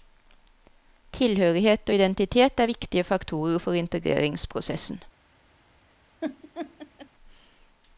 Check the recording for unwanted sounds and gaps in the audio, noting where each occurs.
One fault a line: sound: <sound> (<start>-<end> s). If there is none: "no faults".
sound: laugh (6.2-7.1 s)